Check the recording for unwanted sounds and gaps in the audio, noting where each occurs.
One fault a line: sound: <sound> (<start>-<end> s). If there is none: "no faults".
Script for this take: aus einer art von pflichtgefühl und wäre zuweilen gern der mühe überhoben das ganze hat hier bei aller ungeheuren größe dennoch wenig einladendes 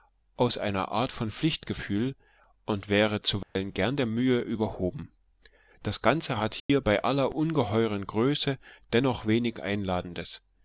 sound: dropout (3.4-3.6 s)
sound: dropout (6.6-6.7 s)